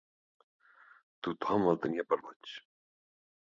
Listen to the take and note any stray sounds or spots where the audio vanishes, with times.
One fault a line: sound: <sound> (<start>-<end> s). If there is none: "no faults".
no faults